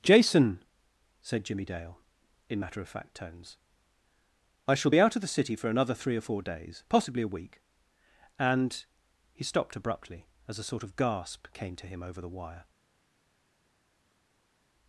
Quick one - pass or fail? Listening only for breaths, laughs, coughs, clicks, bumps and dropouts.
pass